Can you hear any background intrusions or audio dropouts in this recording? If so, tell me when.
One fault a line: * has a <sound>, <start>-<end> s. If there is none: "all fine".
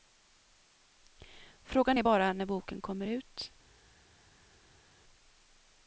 all fine